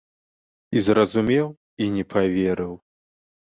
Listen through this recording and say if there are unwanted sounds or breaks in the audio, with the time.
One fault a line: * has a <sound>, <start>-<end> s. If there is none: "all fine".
all fine